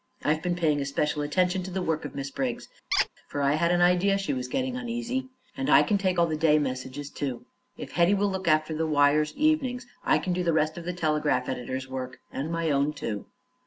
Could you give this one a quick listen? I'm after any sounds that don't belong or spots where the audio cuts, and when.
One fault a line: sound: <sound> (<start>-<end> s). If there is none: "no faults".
sound: squeak (2.9-3.1 s)